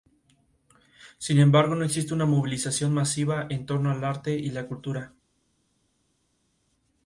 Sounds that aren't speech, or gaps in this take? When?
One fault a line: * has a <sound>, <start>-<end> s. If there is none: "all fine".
all fine